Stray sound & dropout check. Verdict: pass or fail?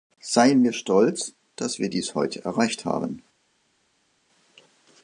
pass